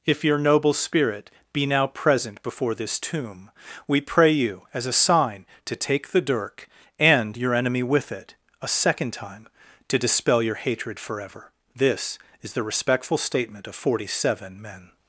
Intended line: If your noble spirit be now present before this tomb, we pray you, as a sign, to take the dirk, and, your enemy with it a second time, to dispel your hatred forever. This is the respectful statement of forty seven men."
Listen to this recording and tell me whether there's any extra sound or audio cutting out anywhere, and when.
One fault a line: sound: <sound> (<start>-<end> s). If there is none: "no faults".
no faults